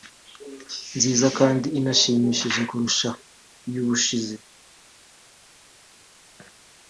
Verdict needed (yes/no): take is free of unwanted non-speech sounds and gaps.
yes